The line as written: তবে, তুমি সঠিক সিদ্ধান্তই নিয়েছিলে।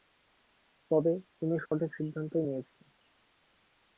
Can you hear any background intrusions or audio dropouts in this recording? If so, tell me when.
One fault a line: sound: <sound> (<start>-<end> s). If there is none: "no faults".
sound: dropout (1.7-1.7 s)